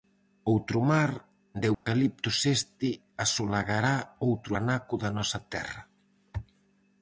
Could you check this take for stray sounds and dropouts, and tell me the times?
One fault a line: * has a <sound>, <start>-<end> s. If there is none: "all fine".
* has a dropout, 1.7-1.9 s